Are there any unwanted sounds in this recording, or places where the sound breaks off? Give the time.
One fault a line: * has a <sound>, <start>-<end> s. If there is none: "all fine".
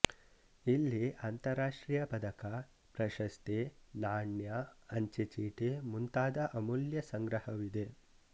all fine